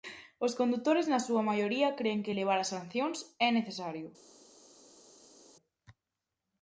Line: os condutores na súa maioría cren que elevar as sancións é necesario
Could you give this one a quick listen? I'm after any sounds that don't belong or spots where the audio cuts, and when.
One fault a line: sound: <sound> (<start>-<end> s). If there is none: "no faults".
no faults